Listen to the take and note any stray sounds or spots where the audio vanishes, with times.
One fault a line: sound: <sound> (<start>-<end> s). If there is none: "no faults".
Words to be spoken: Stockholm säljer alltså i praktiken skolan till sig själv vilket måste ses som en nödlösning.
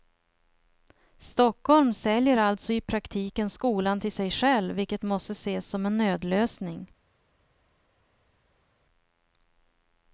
no faults